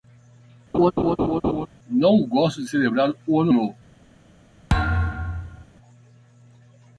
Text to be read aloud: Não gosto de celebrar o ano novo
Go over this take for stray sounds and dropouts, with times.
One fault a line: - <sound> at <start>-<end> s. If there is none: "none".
- laugh at 0.7-1.7 s
- thud at 4.7-5.7 s